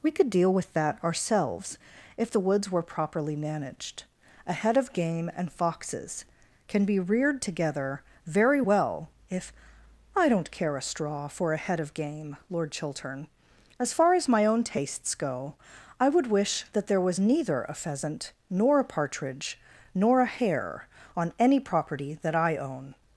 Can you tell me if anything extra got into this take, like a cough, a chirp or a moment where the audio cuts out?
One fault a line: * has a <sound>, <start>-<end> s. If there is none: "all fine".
all fine